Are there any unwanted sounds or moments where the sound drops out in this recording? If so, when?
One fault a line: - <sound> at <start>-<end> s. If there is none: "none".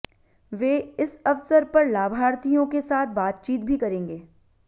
none